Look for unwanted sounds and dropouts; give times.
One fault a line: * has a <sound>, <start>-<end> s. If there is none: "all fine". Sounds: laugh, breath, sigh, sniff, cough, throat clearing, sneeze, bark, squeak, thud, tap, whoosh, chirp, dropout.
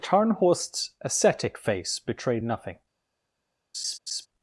* has a laugh, 3.7-4.3 s